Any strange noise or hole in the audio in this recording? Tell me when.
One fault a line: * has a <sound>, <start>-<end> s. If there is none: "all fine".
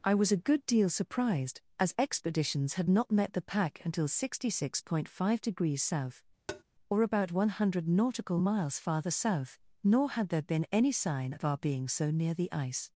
* has a tap, 6.5-6.6 s